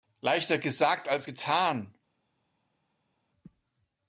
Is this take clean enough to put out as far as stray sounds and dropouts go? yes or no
yes